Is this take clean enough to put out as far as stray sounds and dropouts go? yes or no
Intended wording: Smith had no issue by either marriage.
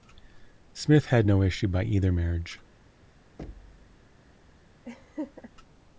no